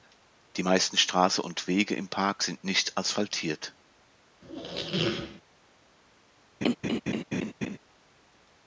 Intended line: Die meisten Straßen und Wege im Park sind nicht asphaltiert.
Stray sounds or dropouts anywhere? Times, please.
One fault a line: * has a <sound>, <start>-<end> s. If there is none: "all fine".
* has a squeak, 4.4-5.4 s
* has a laugh, 6.6-7.8 s